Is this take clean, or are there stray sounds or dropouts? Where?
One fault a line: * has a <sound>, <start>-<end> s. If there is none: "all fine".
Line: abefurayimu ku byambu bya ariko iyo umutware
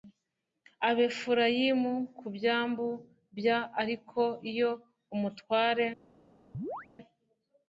* has a chirp, 6.5-6.9 s